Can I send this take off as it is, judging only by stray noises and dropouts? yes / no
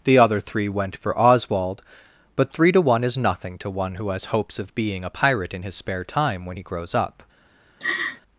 no